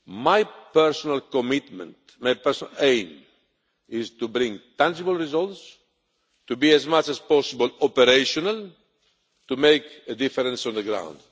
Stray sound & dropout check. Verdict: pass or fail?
pass